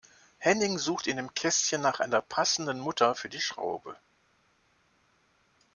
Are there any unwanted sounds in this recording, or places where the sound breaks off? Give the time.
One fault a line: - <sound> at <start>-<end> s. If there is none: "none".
none